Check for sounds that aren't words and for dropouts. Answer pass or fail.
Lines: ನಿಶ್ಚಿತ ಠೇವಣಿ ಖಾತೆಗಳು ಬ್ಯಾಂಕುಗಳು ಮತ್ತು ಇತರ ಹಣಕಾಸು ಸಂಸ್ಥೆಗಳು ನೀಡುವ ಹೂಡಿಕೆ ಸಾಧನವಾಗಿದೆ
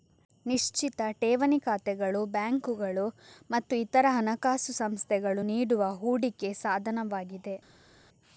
pass